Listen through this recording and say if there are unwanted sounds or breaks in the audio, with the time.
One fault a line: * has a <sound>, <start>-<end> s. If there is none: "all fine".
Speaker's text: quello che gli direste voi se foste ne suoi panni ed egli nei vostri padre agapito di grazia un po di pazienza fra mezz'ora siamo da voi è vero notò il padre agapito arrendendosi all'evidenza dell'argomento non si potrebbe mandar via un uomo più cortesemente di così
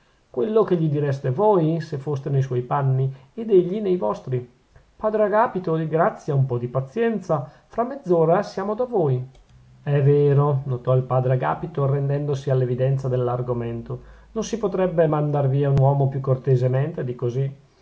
all fine